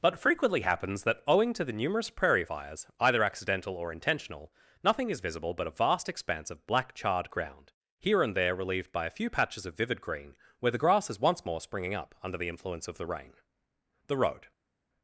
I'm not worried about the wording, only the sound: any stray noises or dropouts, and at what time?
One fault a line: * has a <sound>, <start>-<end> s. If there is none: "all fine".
all fine